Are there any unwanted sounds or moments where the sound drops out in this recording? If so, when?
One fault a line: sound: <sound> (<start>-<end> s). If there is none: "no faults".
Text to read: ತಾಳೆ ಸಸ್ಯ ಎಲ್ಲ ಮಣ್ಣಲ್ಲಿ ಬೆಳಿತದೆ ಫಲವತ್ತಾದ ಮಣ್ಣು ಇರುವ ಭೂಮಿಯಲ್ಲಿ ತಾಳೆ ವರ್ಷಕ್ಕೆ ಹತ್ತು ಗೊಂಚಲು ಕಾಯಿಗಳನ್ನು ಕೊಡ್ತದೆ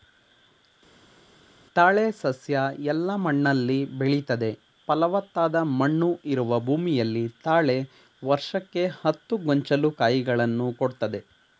no faults